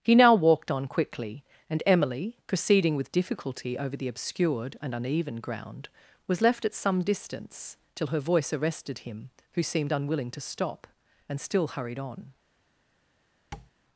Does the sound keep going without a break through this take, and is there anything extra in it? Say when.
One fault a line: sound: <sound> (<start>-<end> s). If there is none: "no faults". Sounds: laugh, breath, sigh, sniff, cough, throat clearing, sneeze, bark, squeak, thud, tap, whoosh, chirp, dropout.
sound: tap (13.5-13.7 s)